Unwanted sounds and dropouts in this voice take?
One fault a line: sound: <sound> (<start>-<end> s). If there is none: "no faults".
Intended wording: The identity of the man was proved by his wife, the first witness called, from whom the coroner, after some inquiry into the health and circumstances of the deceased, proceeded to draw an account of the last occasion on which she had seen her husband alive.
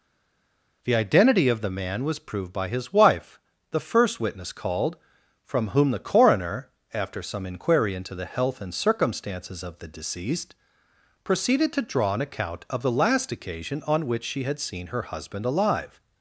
no faults